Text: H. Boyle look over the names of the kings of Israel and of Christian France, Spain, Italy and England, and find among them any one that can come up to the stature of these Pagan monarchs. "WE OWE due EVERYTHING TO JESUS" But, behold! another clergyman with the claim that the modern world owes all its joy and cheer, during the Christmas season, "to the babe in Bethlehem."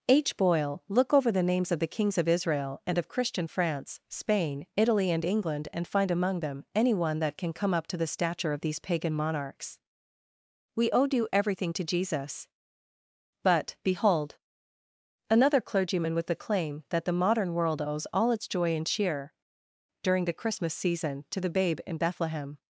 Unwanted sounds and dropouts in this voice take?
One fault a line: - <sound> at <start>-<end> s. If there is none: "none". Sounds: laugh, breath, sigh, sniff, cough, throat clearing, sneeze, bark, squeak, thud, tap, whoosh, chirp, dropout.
none